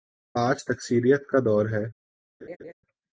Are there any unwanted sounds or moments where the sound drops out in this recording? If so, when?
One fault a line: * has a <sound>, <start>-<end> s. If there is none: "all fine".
* has a laugh, 2.4-2.7 s